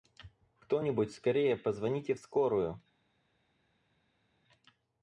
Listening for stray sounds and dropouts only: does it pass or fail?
pass